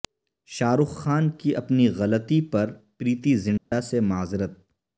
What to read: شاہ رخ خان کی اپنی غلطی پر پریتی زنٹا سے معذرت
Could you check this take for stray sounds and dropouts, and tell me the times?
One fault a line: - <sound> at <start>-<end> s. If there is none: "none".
- dropout at 3.6-3.7 s